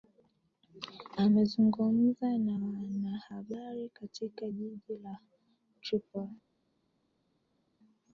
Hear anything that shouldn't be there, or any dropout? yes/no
no